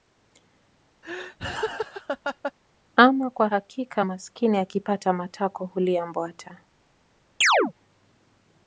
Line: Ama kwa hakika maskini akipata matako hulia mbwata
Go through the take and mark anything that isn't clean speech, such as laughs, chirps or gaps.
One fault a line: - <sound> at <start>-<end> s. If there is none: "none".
- laugh at 1.0-2.5 s
- chirp at 7.4-7.7 s